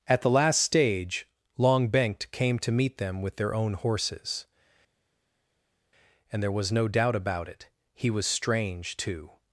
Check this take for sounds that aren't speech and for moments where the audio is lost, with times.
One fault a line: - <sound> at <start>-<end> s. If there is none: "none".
none